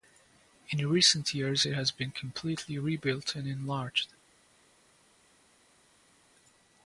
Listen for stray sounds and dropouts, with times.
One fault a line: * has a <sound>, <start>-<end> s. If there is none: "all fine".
all fine